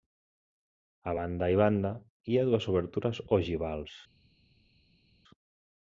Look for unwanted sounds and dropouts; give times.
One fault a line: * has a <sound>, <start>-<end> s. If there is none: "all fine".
all fine